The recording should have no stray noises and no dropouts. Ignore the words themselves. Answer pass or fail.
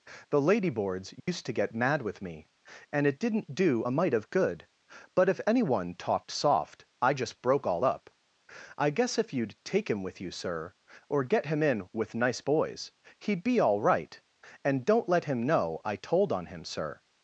fail